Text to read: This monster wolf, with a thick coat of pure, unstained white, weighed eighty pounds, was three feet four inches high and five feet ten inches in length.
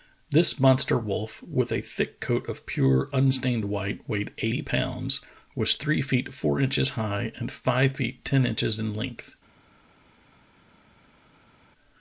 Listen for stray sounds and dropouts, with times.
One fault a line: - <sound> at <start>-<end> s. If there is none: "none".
none